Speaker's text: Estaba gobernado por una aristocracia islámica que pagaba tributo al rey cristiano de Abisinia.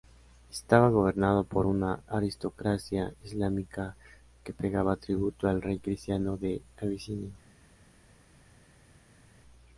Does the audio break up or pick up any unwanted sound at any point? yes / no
no